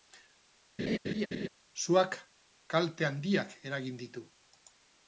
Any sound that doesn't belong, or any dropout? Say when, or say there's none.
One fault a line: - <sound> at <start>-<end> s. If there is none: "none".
- laugh at 0.8-1.5 s